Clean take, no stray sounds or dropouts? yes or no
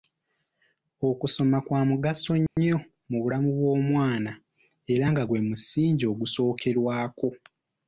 no